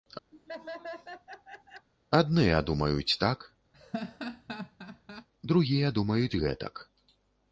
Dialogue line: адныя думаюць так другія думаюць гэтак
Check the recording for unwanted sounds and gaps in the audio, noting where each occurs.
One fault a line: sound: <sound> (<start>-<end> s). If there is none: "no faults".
sound: laugh (0.3-1.9 s)
sound: laugh (3.7-5.3 s)